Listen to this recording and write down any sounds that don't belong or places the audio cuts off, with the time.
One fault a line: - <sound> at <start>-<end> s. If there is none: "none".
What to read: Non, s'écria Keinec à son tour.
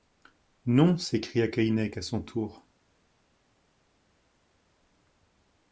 none